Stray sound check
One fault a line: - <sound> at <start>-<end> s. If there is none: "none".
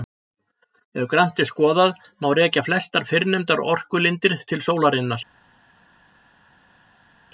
none